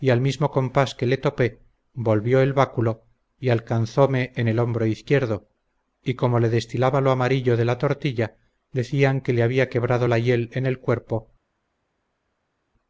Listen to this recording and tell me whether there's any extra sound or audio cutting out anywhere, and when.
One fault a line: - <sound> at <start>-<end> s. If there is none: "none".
none